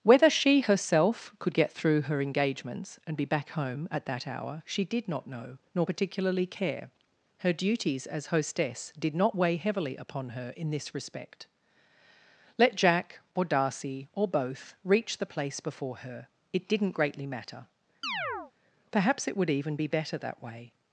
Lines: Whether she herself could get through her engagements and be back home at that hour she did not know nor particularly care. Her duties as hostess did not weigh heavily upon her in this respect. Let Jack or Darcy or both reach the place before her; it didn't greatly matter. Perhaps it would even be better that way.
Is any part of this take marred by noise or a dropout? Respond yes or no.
yes